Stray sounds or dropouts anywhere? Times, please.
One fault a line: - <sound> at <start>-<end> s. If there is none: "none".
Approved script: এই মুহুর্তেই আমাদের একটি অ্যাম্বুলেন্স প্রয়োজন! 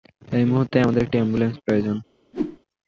- whoosh at 2.3-2.6 s